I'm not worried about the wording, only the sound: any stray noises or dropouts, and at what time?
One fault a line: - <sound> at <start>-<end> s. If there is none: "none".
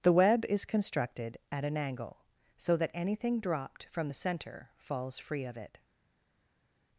none